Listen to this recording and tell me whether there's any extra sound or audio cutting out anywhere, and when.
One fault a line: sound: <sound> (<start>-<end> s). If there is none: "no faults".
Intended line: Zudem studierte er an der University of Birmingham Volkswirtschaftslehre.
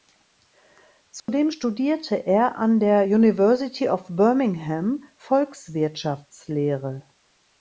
sound: dropout (1.2-1.3 s)